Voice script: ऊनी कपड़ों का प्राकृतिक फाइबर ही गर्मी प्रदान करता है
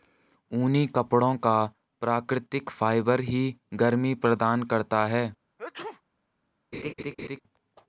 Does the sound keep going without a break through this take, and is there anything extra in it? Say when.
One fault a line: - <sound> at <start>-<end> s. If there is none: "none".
- sneeze at 5.6-6.0 s
- laugh at 6.7-7.4 s